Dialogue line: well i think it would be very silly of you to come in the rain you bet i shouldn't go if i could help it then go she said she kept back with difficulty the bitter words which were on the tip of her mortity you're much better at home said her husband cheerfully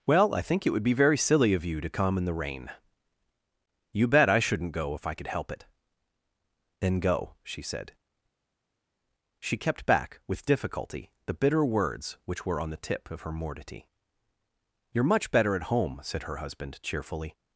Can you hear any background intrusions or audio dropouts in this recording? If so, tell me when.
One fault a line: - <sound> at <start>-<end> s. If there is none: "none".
none